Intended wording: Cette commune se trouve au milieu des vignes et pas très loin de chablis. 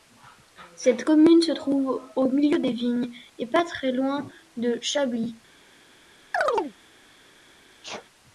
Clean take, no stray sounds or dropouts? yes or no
no